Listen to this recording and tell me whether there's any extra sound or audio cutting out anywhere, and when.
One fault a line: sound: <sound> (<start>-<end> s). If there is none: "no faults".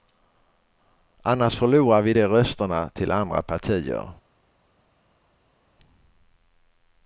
no faults